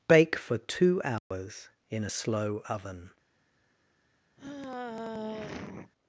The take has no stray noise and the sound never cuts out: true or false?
false